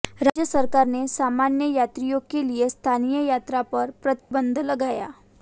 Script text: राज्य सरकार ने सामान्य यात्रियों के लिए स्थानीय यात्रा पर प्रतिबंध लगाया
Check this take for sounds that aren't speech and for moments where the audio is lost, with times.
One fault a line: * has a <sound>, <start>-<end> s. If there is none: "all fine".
* has a dropout, 4.2-4.3 s